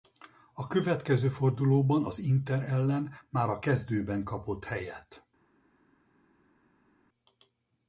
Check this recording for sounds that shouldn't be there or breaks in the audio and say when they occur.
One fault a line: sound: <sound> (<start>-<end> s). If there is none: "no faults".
no faults